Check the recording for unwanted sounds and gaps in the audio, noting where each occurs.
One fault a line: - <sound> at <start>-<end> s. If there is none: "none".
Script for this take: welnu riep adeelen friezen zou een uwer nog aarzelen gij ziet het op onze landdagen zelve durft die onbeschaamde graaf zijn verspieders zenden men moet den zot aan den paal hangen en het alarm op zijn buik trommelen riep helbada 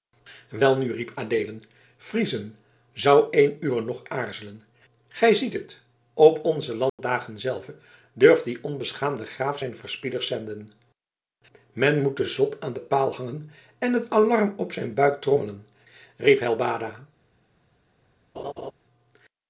- dropout at 6.9-7.0 s
- laugh at 18.3-18.7 s